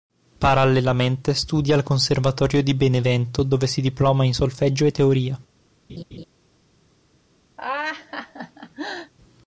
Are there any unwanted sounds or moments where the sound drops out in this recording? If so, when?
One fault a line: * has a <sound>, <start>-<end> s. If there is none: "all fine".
* has a laugh, 5.9-6.3 s
* has a laugh, 7.6-9.1 s